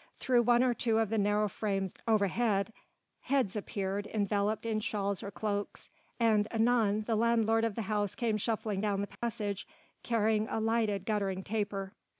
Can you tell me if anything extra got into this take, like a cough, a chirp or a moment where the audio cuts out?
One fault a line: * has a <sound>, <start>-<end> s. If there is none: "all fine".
* has a dropout, 9.2-9.2 s